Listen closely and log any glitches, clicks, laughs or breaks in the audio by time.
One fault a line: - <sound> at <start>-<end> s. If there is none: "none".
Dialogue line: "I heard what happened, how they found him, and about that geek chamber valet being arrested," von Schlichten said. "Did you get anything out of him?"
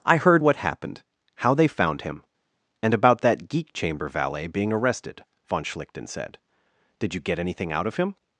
none